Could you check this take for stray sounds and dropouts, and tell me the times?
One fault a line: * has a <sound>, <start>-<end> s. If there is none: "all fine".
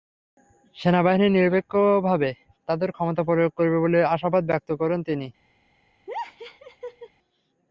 * has a laugh, 6.1-7.1 s